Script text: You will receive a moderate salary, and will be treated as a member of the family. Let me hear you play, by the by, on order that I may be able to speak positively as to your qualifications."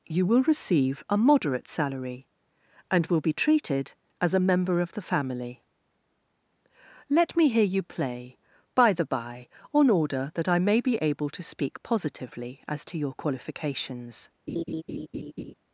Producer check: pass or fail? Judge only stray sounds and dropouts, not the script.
fail